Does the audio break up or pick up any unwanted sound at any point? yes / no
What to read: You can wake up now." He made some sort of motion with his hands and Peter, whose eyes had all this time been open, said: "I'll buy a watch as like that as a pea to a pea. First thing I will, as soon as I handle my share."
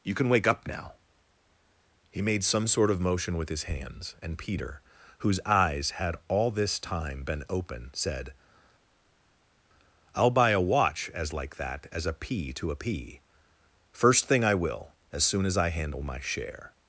no